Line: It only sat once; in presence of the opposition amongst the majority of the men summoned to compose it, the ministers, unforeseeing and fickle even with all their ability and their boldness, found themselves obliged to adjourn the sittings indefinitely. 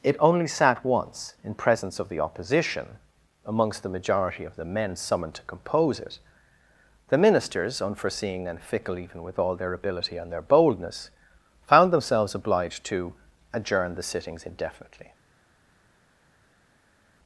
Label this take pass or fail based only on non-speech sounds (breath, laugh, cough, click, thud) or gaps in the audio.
pass